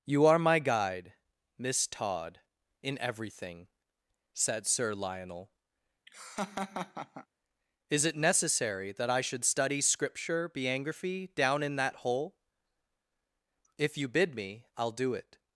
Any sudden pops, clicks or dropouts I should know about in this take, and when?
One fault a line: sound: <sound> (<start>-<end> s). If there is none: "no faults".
sound: laugh (6.1-7.3 s)